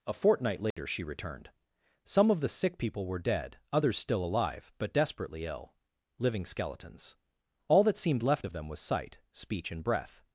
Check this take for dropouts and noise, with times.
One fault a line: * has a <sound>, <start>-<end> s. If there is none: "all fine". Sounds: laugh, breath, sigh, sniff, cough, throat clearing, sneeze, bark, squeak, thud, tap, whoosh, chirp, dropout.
* has a dropout, 0.7-0.8 s